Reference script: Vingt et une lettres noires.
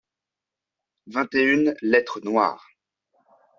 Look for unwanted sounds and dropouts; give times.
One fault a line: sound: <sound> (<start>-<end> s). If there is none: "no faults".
no faults